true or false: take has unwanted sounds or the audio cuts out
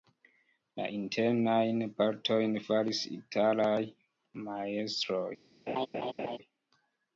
true